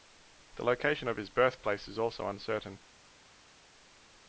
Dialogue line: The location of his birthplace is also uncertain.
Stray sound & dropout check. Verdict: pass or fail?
pass